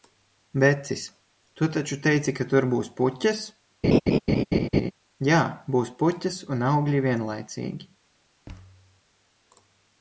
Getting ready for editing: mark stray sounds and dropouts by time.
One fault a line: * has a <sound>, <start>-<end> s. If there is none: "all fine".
* has a laugh, 3.8-4.9 s
* has a thud, 8.5-9.0 s